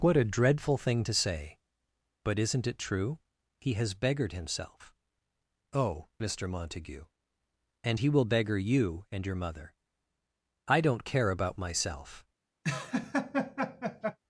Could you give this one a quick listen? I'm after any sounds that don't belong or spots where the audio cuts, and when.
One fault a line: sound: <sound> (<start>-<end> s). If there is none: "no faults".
sound: laugh (12.6-14.2 s)